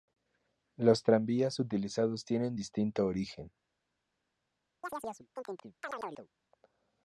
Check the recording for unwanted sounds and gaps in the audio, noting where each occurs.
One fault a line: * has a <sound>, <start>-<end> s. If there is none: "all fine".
* has a chirp, 4.8-6.3 s